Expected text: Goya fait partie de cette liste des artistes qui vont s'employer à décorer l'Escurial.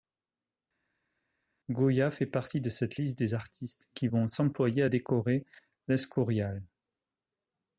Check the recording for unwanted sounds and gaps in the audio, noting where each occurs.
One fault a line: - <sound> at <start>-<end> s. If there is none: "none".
none